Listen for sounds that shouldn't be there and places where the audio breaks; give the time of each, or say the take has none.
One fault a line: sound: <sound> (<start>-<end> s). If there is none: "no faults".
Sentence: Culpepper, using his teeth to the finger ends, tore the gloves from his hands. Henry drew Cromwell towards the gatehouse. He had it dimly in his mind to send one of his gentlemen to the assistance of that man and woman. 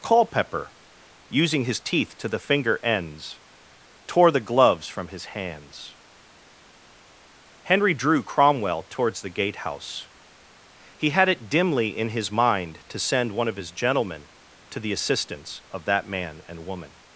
no faults